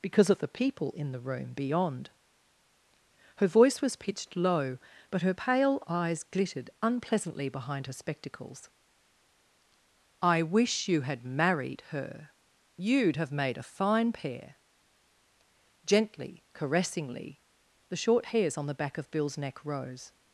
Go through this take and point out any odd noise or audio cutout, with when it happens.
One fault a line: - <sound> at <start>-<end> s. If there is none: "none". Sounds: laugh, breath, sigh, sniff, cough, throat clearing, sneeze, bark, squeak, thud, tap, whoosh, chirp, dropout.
none